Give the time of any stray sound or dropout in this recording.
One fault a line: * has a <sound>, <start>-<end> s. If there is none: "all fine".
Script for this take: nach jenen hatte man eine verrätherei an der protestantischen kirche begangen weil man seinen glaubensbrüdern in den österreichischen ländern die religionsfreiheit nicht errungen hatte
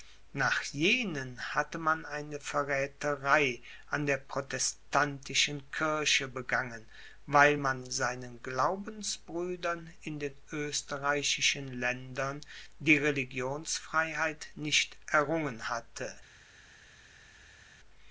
all fine